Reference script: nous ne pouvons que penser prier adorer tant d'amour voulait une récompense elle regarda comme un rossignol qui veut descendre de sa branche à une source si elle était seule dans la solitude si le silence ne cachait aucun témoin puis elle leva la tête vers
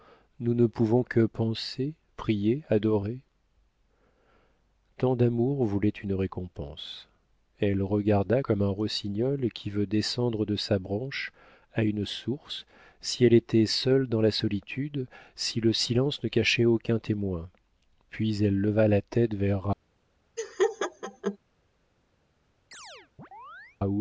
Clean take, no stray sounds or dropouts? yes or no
no